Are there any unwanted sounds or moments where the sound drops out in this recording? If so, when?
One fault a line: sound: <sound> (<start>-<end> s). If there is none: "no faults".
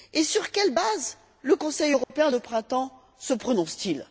sound: dropout (2.0-2.1 s)